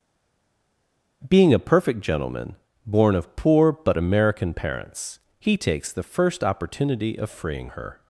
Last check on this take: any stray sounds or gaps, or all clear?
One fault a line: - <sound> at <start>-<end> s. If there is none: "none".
none